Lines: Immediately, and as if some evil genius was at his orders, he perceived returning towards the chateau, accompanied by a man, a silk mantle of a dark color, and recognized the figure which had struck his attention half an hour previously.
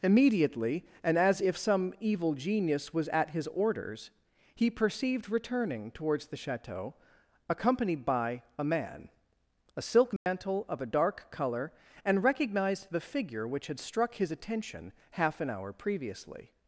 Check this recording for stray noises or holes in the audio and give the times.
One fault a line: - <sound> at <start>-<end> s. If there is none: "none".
- dropout at 10.2-10.3 s